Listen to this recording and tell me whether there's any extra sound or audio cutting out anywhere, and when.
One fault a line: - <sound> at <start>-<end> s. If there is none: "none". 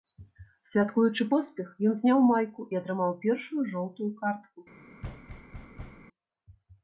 - thud at 5.0-6.1 s